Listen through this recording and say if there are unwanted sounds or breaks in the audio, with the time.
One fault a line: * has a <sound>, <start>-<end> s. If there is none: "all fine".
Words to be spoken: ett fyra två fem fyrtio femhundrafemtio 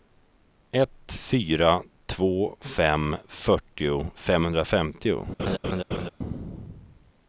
* has a laugh, 5.4-6.1 s